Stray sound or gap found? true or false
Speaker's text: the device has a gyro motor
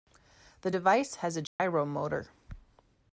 true